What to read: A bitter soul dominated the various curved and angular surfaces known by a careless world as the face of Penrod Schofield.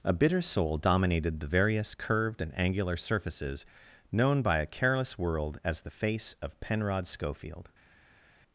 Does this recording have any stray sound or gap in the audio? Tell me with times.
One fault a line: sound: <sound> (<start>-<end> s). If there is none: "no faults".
no faults